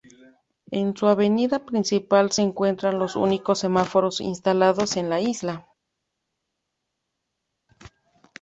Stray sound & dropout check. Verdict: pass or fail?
pass